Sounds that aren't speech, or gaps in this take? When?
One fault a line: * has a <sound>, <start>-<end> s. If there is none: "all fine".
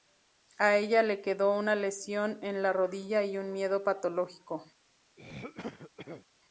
* has a throat clearing, 5.2-6.3 s